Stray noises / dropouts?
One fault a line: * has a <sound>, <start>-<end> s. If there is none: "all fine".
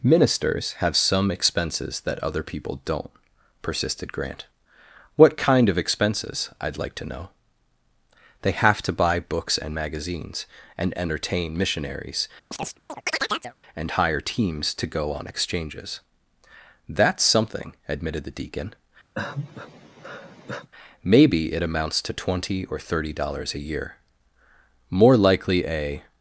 * has a chirp, 12.5-13.6 s
* has a sigh, 19.1-20.7 s